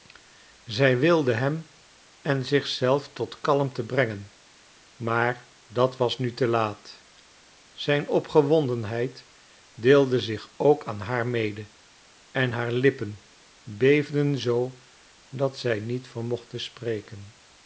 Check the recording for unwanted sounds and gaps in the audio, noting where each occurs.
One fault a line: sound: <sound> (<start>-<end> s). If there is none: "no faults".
no faults